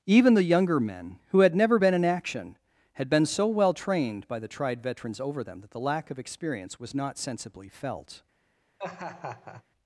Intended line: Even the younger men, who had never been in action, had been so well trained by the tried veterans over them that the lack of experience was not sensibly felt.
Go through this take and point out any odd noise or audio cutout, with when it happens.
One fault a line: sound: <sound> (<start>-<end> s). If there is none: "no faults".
sound: laugh (8.8-9.6 s)